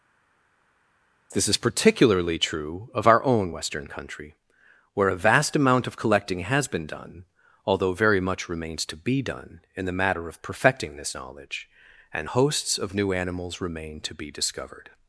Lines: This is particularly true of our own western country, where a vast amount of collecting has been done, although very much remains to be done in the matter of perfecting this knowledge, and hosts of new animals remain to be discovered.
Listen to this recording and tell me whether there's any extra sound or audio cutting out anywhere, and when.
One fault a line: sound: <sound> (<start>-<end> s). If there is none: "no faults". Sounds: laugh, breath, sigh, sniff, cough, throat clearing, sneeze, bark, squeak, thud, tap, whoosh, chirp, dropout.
no faults